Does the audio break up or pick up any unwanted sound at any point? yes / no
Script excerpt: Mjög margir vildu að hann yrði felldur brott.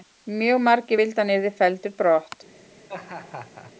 yes